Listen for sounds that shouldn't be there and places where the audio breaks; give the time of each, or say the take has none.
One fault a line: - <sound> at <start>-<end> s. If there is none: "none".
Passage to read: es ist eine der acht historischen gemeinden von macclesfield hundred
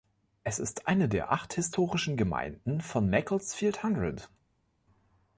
none